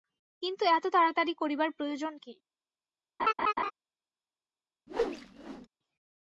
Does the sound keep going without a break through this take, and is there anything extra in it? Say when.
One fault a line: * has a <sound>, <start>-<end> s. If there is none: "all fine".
* has a laugh, 3.2-3.7 s
* has a whoosh, 4.9-5.7 s